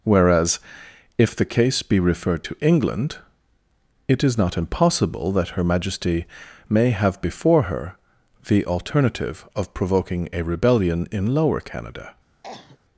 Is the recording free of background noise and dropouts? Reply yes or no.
no